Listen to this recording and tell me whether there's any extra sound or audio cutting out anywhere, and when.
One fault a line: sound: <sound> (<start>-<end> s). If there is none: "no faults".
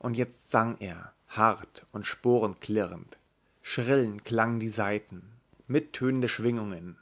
no faults